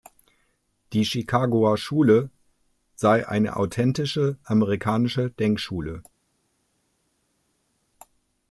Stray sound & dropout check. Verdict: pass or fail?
pass